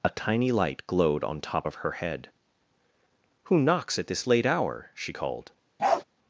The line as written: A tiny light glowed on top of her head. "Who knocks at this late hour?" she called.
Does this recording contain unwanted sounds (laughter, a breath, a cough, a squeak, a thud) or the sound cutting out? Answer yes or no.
yes